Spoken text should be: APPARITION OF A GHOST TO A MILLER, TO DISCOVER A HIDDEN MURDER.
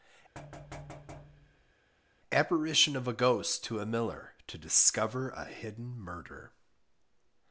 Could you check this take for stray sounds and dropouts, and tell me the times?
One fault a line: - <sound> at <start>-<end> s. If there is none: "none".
- thud at 0.3-1.7 s